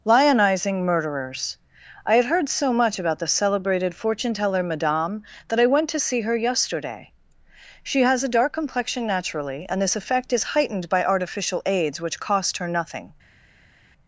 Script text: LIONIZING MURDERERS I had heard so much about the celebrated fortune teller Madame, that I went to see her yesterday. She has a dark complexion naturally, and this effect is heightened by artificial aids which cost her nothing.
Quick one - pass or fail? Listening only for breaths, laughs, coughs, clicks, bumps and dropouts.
pass